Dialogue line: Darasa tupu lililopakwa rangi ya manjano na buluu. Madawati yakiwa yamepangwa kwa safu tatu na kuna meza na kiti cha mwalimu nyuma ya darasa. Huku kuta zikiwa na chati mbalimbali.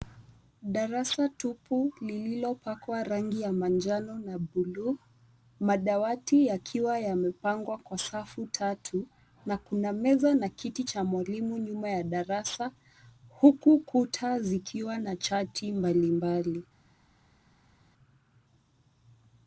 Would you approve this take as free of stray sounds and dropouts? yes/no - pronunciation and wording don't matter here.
yes